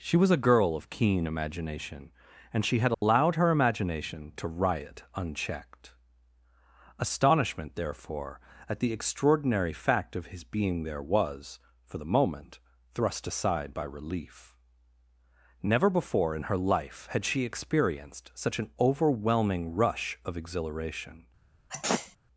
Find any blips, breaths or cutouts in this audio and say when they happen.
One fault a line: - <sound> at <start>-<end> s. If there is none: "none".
- dropout at 2.9-3.0 s
- sneeze at 21.7-22.2 s